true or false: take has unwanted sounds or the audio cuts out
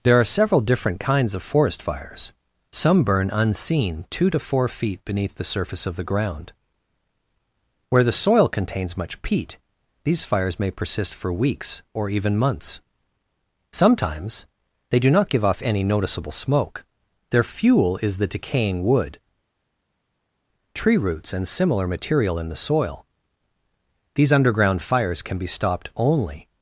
false